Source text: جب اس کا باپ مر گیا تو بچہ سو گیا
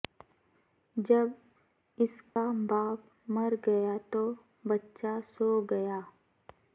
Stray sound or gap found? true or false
true